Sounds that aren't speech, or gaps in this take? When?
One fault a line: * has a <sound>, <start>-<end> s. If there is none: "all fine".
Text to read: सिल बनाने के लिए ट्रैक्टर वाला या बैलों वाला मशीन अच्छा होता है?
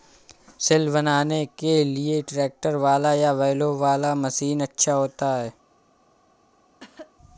* has a cough, 6.8-7.1 s